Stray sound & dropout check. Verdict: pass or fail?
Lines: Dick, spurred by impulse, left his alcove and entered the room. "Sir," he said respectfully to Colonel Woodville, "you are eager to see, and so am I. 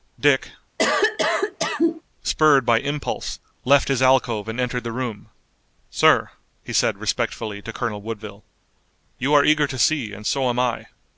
fail